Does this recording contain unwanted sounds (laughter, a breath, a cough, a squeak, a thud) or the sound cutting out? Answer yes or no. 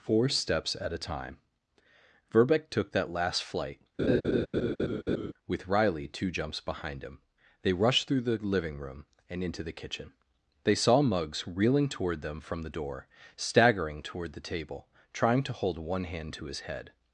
yes